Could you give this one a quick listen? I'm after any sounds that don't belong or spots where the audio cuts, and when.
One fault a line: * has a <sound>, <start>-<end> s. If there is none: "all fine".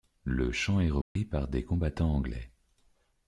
* has a dropout, 1.0-1.2 s